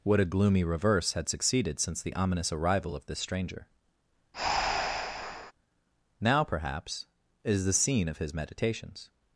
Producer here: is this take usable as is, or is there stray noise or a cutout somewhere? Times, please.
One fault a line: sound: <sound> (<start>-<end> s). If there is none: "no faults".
sound: breath (4.3-5.5 s)